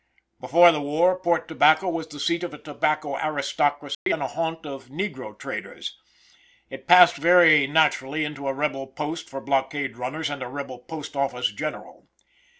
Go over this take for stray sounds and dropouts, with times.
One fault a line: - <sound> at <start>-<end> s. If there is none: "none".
- dropout at 3.9-4.1 s